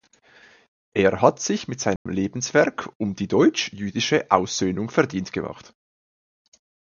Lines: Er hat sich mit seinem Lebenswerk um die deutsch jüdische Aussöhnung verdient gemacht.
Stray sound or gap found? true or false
true